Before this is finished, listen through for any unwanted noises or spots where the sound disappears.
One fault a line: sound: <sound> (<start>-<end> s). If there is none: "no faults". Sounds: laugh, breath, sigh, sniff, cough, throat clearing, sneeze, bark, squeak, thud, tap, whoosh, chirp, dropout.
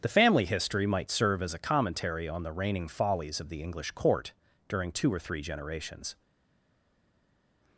no faults